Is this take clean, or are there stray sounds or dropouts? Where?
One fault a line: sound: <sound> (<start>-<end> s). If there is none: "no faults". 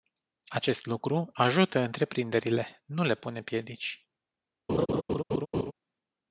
sound: laugh (4.7-5.7 s)